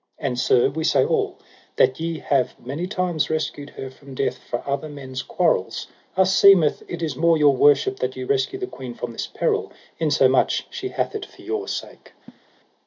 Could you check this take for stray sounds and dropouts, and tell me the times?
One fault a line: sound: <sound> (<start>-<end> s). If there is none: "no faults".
sound: laugh (12.3-12.4 s)